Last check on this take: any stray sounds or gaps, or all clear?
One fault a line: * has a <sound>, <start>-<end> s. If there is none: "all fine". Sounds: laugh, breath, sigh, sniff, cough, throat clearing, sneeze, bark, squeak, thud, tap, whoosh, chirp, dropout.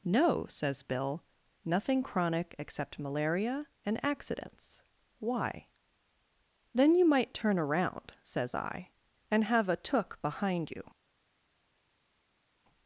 all fine